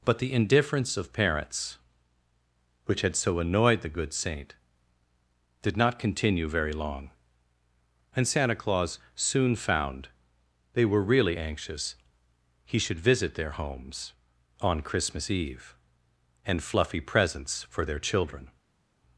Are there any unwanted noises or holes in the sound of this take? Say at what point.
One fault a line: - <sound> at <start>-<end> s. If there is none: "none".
none